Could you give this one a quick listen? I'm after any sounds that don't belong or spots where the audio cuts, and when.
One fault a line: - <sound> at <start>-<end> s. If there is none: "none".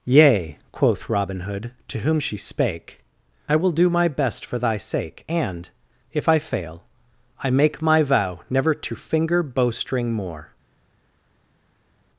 none